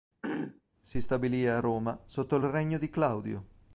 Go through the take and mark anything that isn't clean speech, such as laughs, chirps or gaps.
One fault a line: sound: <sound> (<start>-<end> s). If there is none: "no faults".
sound: throat clearing (0.2-0.6 s)